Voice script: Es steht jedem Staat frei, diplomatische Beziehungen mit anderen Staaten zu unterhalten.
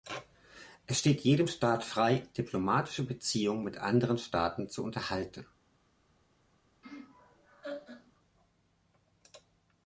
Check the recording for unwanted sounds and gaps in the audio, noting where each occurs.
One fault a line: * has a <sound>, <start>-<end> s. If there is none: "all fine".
* has a laugh, 6.8-8.1 s